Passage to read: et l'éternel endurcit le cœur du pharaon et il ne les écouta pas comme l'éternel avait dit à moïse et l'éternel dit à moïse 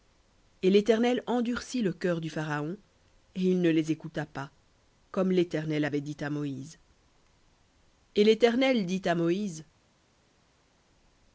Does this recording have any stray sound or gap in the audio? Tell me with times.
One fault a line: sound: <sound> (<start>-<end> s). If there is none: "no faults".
no faults